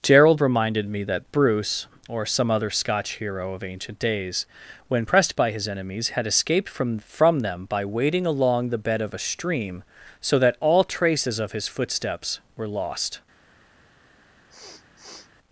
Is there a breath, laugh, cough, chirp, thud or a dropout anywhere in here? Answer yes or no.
yes